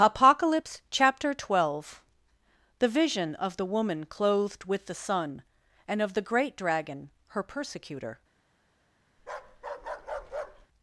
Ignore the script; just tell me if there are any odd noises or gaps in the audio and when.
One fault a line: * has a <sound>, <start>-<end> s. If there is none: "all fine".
* has a bark, 9.2-10.7 s